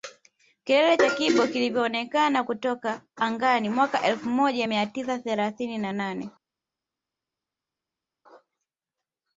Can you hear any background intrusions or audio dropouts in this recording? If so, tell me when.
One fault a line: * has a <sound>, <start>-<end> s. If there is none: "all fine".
all fine